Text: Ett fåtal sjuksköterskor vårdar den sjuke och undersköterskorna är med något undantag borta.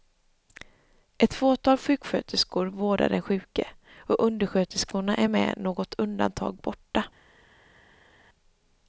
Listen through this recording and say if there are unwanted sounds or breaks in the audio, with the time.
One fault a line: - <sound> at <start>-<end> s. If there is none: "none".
none